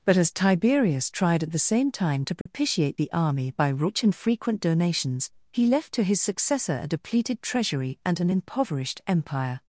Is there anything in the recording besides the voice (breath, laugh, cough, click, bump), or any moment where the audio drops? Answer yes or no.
yes